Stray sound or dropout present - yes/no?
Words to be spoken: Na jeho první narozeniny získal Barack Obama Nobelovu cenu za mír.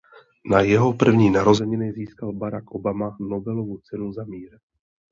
no